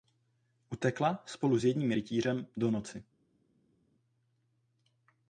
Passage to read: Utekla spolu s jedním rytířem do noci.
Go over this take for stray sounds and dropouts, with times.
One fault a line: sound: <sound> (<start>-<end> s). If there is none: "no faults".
no faults